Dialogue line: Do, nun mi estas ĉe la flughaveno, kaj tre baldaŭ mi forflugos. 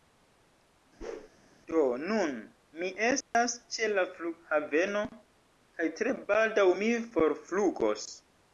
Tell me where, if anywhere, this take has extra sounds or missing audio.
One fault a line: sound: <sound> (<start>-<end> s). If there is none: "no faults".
sound: whoosh (1.0-1.3 s)
sound: dropout (3.2-3.3 s)